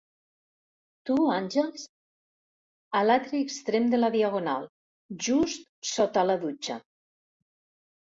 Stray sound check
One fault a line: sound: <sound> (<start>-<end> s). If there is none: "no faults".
no faults